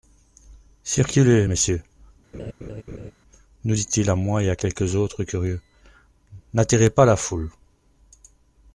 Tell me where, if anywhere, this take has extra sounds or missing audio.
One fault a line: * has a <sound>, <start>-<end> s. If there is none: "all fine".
* has a laugh, 2.3-3.1 s